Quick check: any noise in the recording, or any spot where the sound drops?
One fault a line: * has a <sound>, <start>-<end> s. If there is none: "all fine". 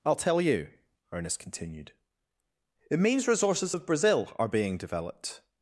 all fine